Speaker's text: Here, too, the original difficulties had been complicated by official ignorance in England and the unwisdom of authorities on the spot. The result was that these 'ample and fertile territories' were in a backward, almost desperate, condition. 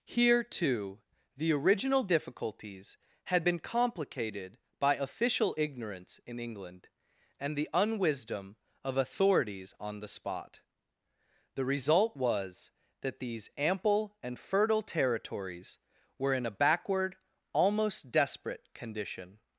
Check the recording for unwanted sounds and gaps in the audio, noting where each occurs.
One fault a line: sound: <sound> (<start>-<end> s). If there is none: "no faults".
no faults